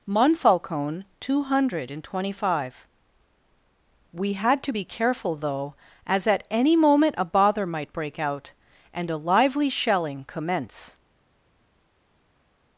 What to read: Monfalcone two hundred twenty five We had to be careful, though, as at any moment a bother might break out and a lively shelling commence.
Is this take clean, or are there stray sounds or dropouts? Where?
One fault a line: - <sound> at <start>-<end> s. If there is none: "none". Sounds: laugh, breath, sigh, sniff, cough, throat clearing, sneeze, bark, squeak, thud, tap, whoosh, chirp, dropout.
none